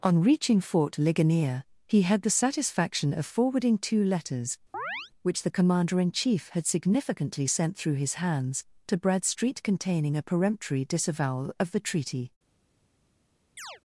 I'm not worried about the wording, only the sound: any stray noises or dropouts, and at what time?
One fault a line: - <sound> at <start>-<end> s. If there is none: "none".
- chirp at 4.7-5.1 s
- chirp at 13.6-13.8 s